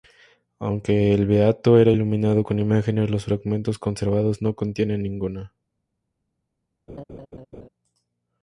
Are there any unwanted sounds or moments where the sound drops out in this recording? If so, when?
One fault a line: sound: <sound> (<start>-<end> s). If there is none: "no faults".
sound: laugh (6.9-7.7 s)